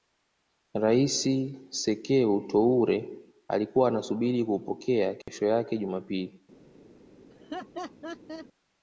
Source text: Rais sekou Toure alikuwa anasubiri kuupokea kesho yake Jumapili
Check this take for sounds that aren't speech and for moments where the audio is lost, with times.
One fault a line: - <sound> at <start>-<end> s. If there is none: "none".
- dropout at 5.2-5.3 s
- laugh at 7.3-8.5 s